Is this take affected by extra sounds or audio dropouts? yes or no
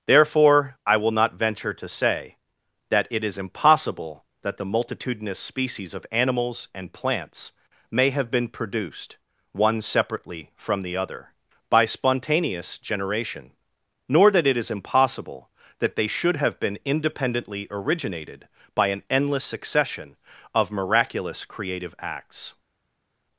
no